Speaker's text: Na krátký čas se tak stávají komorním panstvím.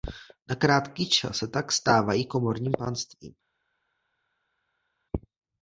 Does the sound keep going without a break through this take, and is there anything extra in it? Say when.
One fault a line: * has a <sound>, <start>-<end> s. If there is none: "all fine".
all fine